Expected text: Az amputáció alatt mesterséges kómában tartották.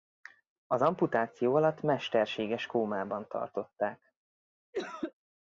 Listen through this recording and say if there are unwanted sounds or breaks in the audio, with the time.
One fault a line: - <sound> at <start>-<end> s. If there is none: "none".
- cough at 4.7-5.1 s